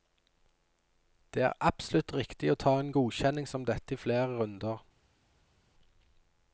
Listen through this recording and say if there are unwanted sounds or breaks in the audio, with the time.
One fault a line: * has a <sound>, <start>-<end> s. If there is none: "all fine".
all fine